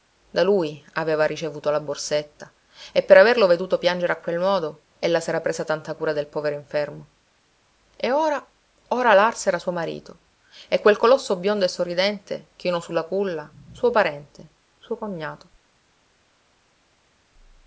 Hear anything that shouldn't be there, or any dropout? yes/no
no